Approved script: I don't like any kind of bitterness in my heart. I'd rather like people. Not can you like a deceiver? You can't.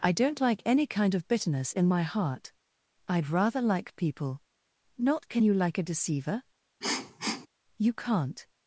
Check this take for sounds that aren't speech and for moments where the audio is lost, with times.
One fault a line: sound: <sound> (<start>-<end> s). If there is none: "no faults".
sound: sniff (6.8-7.5 s)